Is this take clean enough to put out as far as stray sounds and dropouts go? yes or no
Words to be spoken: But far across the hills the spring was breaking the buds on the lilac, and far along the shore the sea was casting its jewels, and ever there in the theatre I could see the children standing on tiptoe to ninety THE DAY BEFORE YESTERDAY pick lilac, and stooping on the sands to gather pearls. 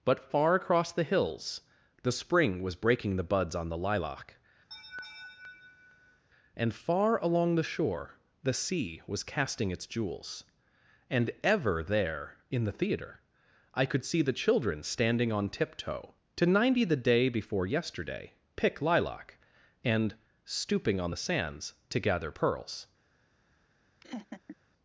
no